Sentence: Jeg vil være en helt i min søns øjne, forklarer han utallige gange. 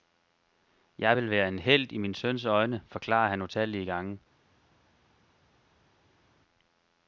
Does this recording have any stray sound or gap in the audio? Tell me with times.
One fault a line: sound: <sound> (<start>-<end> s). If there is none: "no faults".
no faults